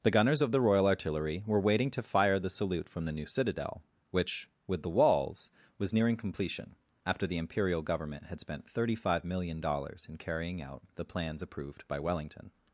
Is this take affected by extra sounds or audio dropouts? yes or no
no